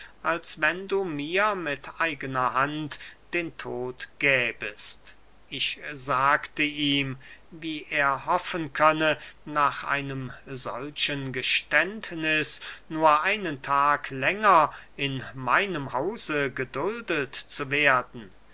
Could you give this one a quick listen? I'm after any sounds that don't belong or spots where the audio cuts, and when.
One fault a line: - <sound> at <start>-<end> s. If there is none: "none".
none